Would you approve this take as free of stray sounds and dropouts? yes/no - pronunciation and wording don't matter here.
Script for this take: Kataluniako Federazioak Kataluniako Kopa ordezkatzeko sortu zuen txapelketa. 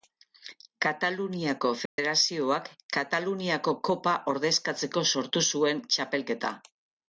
no